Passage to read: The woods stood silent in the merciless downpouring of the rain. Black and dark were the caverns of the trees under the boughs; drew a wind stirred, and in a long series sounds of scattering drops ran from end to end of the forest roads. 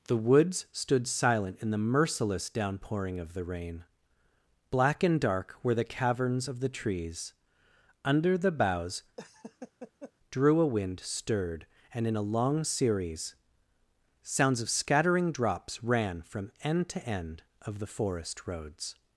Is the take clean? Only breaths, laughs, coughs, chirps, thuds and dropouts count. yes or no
no